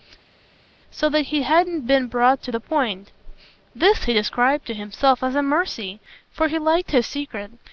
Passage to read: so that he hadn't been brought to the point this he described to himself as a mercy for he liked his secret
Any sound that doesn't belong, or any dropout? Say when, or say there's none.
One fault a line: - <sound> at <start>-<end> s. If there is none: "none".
none